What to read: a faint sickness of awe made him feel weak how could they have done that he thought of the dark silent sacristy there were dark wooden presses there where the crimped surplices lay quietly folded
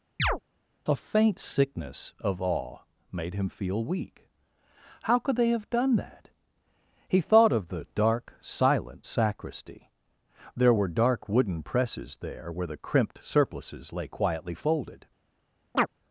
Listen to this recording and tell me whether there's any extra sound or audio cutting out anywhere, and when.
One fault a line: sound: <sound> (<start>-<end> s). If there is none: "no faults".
sound: chirp (0.2-0.4 s)
sound: chirp (15.7-15.9 s)